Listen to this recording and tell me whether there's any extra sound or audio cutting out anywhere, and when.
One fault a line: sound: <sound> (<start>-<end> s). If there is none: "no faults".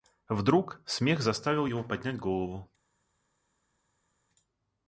no faults